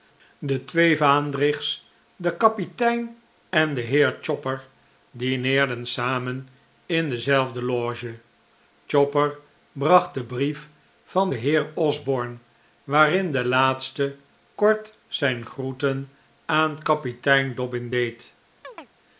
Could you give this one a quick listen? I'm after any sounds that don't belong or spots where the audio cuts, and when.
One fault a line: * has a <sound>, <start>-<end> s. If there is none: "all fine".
* has a chirp, 18.6-18.9 s